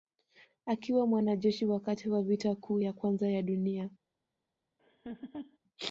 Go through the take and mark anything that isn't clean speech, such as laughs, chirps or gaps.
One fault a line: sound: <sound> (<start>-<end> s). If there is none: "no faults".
sound: laugh (4.8-5.6 s)